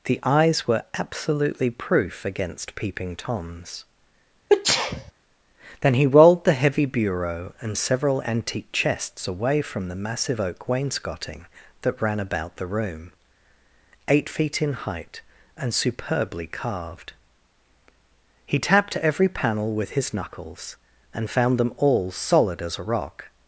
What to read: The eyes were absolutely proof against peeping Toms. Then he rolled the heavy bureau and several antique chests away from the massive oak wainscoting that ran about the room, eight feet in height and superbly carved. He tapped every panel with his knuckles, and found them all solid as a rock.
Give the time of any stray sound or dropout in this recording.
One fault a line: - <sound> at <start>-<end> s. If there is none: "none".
- sneeze at 4.5-5.1 s